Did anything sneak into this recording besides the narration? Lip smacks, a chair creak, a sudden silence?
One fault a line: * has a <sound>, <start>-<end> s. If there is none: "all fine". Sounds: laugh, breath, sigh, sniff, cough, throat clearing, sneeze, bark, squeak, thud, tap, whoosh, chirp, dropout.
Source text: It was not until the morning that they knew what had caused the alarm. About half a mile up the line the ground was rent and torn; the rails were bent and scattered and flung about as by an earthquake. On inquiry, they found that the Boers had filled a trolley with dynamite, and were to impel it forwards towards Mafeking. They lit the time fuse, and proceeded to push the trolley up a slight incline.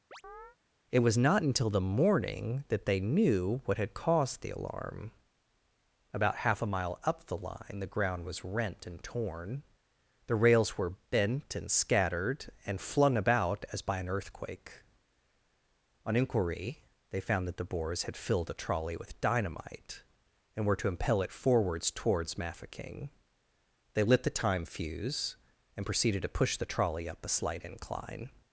* has a chirp, 0.1-0.6 s